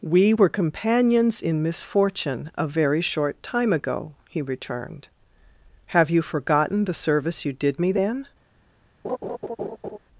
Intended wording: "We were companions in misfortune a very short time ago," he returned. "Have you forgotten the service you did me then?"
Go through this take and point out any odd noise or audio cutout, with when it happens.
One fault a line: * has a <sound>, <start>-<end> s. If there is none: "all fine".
* has a laugh, 9.0-10.0 s